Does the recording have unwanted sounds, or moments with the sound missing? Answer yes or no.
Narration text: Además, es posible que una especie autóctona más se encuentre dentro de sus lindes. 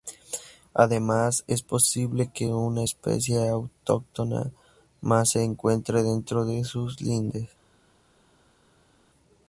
no